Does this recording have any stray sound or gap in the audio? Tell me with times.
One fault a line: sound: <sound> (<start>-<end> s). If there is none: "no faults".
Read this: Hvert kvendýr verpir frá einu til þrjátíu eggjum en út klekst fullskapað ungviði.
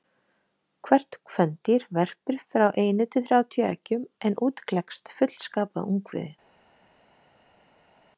no faults